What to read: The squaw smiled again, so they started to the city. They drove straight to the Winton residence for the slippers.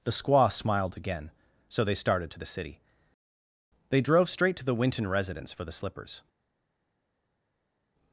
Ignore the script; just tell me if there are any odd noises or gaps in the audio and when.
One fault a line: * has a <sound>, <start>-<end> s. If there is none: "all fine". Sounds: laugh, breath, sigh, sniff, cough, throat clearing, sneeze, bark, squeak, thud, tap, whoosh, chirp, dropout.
all fine